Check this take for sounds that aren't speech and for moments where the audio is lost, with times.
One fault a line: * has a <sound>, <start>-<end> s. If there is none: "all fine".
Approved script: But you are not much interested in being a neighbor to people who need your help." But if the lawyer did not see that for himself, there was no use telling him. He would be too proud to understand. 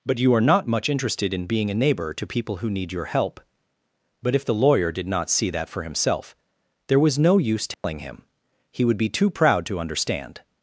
* has a dropout, 7.7-7.8 s